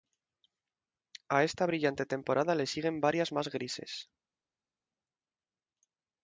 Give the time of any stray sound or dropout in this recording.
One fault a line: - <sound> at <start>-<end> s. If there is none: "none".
none